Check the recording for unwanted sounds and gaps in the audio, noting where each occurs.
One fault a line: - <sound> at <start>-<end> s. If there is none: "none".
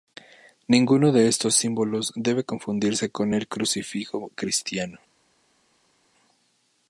none